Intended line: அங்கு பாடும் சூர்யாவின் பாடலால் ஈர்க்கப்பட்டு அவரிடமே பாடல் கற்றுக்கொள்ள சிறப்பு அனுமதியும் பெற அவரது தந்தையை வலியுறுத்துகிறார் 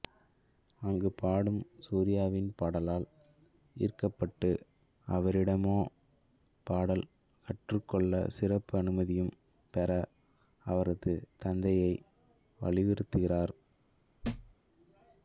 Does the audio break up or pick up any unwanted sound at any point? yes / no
yes